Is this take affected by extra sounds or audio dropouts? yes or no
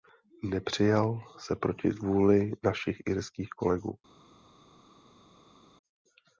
no